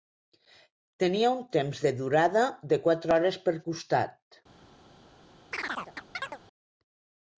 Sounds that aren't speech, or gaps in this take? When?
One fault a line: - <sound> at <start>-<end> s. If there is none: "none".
- chirp at 5.5-6.4 s